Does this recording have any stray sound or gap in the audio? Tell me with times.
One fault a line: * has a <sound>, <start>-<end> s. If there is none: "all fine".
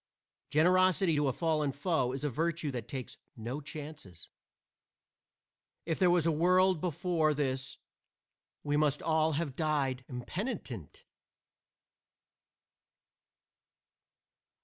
all fine